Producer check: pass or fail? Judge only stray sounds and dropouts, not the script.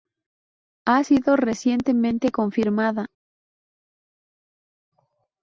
pass